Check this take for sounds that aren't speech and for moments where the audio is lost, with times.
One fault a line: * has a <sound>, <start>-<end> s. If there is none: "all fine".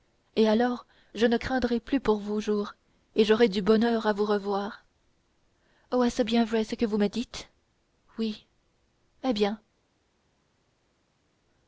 all fine